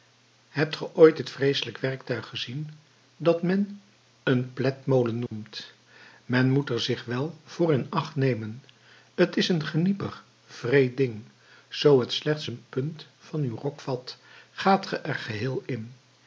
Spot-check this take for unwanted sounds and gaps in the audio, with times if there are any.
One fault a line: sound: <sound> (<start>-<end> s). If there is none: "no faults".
sound: dropout (5.3-5.3 s)